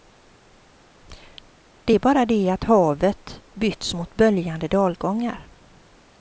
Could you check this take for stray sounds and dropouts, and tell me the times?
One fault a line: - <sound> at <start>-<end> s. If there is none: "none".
none